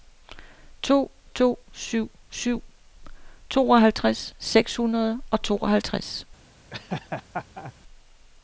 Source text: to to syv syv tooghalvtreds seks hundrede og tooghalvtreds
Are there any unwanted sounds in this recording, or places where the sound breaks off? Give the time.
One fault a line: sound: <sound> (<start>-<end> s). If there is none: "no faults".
sound: laugh (6.7-7.7 s)